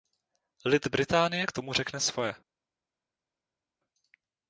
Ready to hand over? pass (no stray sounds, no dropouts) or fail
pass